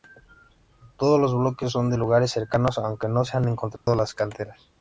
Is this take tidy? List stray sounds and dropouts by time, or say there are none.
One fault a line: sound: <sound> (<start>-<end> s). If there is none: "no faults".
sound: dropout (3.8-3.9 s)